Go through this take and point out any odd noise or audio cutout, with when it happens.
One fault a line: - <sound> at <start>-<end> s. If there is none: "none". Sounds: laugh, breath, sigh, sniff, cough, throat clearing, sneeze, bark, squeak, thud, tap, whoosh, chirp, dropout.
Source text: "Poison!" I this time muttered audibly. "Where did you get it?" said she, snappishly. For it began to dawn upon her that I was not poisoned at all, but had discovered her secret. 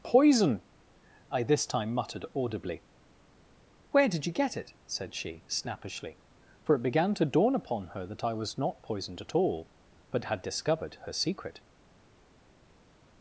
none